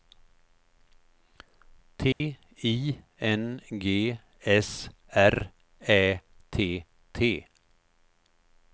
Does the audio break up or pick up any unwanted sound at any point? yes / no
yes